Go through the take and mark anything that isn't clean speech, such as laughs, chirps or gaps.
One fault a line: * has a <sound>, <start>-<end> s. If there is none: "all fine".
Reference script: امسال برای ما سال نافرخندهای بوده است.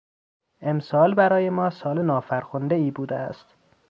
all fine